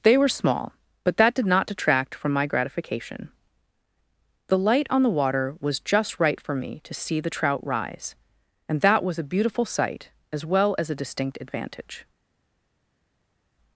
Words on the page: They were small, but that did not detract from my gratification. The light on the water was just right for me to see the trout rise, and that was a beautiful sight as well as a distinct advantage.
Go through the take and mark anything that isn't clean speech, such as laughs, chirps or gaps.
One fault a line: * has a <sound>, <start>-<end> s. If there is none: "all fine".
all fine